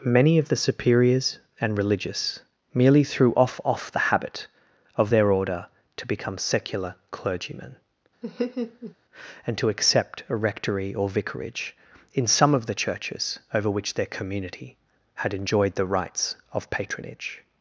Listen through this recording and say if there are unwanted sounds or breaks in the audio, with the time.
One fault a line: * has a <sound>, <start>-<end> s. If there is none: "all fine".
* has a laugh, 8.2-8.9 s